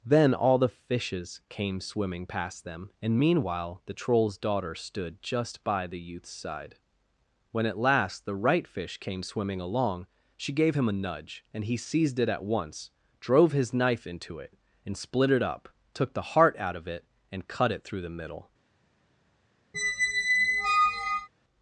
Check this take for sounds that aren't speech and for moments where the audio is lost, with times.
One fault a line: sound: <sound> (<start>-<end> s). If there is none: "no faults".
sound: squeak (19.7-21.3 s)